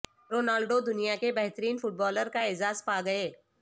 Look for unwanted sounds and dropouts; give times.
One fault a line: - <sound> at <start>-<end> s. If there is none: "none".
none